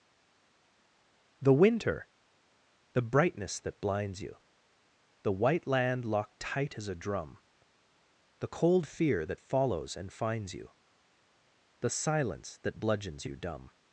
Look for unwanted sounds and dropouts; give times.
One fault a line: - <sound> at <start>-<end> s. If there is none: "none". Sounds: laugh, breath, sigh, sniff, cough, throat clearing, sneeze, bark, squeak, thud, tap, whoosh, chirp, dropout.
none